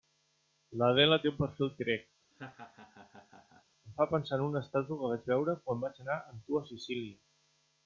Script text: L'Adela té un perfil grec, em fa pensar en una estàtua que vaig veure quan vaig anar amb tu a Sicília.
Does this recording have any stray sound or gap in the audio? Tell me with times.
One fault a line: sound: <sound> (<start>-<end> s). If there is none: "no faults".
sound: laugh (2.3-3.6 s)